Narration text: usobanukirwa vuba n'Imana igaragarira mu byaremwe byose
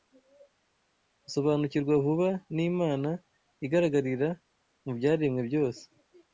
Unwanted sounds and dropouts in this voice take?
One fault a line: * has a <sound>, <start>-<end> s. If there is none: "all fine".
all fine